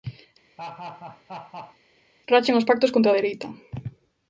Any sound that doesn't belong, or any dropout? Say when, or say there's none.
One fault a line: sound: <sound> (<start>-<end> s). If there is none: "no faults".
sound: laugh (0.6-1.8 s)